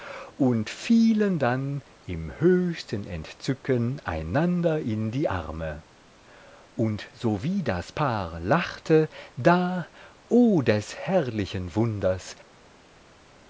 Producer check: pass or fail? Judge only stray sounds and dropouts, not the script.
pass